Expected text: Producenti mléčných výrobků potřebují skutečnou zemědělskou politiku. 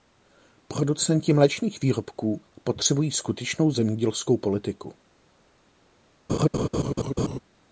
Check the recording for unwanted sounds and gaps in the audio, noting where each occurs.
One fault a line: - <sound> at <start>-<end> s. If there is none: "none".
- laugh at 6.3-7.4 s